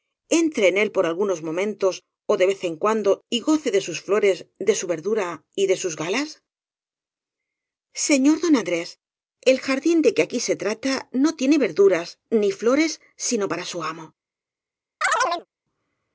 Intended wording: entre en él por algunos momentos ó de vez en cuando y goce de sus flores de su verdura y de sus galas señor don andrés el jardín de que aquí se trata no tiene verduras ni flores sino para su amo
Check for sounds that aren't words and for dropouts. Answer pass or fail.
fail